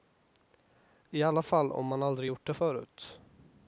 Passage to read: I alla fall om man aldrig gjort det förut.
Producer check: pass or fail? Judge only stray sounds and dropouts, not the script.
pass